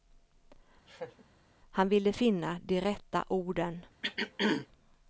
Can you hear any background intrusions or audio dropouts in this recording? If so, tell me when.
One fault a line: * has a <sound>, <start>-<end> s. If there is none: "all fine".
* has a laugh, 0.9-1.2 s
* has a throat clearing, 4.0-4.7 s